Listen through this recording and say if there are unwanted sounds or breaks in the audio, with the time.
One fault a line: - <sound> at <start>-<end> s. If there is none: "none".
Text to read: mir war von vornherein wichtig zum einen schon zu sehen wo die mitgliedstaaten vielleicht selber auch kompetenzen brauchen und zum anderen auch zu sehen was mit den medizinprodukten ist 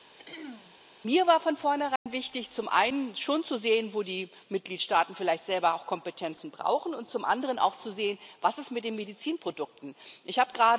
- throat clearing at 0.2-0.8 s
- dropout at 2.0-2.1 s